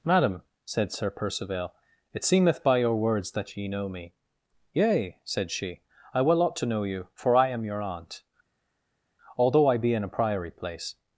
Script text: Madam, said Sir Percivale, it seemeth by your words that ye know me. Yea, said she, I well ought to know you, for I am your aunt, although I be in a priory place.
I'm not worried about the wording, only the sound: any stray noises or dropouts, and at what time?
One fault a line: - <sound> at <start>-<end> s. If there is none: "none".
none